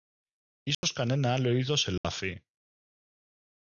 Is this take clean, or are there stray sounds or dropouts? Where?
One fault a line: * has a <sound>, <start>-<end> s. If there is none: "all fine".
* has a dropout, 0.7-0.8 s
* has a dropout, 2.0-2.0 s